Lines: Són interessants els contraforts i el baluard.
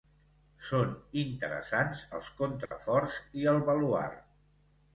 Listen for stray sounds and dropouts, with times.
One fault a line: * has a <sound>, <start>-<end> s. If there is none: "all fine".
* has a dropout, 2.7-2.7 s